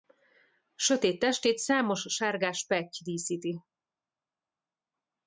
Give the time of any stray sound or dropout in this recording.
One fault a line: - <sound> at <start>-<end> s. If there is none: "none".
none